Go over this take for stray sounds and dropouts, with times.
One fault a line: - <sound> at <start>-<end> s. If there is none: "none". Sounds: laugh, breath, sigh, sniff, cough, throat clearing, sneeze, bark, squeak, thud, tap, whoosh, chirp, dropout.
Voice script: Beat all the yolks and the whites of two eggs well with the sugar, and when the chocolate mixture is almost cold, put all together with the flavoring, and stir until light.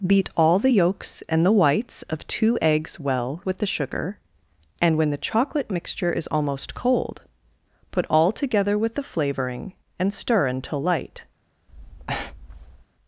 - breath at 11.7-12.9 s